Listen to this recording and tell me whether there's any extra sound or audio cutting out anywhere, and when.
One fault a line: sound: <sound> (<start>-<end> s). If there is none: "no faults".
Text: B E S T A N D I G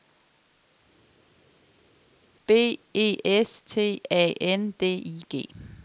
no faults